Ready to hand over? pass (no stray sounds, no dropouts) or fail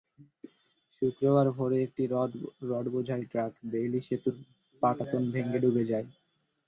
pass